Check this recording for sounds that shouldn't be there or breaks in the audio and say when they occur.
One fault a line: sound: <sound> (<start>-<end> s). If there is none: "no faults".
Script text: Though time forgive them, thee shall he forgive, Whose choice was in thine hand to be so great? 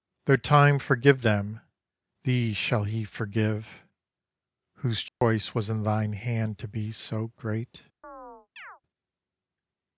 sound: dropout (5.1-5.2 s)
sound: chirp (8.0-8.8 s)